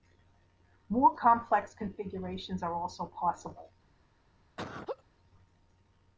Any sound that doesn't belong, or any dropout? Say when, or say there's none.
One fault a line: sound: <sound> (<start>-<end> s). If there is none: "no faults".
sound: laugh (4.6-5.0 s)